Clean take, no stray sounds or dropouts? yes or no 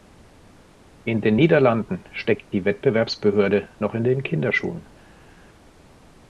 yes